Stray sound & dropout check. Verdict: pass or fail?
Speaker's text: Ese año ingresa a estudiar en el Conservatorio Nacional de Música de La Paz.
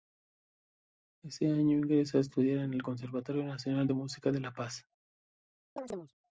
fail